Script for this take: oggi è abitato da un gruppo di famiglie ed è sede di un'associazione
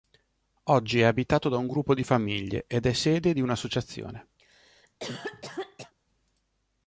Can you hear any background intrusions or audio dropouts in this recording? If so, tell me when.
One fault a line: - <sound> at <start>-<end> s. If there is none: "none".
- cough at 4.4-5.9 s